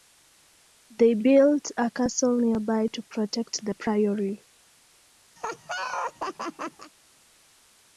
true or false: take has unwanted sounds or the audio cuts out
true